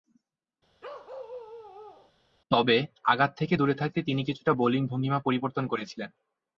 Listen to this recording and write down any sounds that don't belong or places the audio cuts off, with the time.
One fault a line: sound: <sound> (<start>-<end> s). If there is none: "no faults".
sound: bark (0.8-2.1 s)